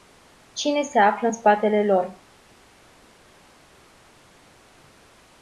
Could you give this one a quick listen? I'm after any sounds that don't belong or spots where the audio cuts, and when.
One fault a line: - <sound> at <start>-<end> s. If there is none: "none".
none